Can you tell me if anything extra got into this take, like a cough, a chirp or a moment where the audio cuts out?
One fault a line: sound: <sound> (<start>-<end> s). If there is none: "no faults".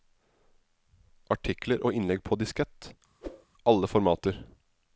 sound: whoosh (3.2-3.5 s)